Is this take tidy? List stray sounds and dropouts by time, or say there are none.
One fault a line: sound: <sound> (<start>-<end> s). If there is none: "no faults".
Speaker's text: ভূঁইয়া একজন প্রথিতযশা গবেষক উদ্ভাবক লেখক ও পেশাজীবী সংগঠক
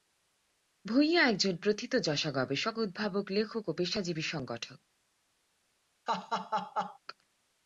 sound: laugh (6.1-7.0 s)